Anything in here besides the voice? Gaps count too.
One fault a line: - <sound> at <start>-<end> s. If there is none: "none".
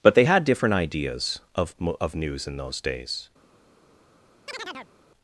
- chirp at 4.5-4.9 s